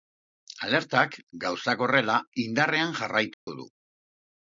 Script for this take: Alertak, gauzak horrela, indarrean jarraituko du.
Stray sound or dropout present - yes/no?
yes